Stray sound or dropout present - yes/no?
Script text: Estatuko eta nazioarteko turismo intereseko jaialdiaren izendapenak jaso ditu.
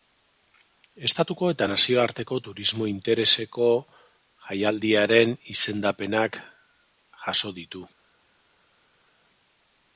no